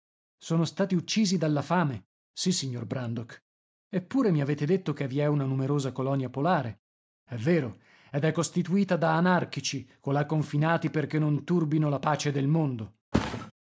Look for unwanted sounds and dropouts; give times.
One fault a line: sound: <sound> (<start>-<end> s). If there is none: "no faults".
sound: thud (13.1-13.5 s)